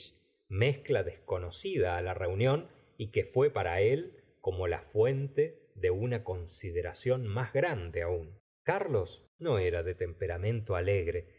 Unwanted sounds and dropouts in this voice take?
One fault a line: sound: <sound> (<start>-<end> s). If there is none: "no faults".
no faults